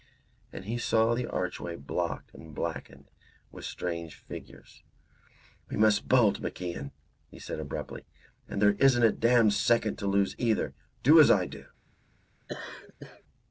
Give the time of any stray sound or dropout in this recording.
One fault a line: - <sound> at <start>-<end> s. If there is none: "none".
- laugh at 12.5-13.2 s